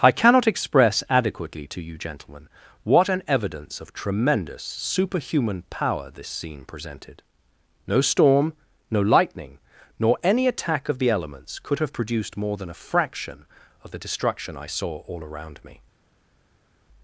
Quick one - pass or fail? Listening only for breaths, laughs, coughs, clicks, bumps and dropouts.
pass